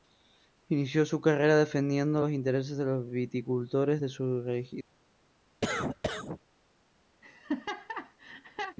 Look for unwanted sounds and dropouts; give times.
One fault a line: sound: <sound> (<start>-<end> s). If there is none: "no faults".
sound: cough (5.6-6.4 s)
sound: laugh (7.2-8.8 s)